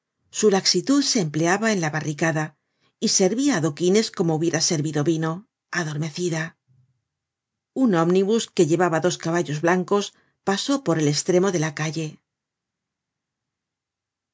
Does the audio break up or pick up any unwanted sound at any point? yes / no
no